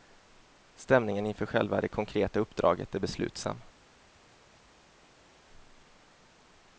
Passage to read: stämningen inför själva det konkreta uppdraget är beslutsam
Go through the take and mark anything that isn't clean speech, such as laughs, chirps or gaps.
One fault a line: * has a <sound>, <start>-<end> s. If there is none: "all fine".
all fine